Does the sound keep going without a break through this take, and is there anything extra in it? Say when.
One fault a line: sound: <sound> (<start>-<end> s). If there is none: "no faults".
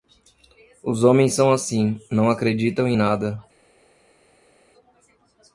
no faults